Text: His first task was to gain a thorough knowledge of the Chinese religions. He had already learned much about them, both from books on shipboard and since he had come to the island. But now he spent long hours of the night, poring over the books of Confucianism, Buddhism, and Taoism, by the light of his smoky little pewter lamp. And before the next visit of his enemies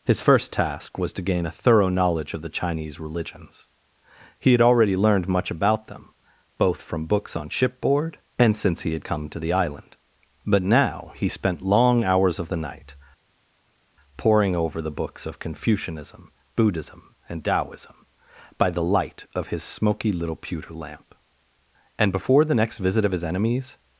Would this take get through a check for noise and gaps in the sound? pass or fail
pass